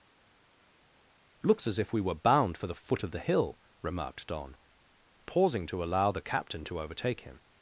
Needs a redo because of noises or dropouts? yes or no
no